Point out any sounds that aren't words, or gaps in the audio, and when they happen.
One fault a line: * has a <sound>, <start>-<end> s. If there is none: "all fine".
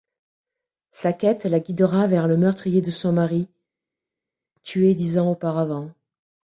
all fine